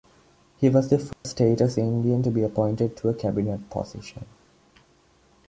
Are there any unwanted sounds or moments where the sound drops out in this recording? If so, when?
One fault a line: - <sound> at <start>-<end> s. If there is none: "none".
- dropout at 1.1-1.2 s